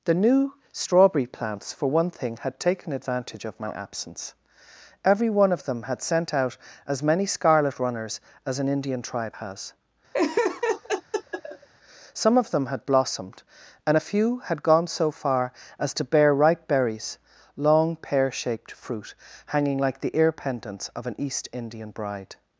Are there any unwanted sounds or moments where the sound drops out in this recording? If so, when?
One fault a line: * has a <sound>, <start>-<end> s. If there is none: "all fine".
* has a laugh, 10.1-11.7 s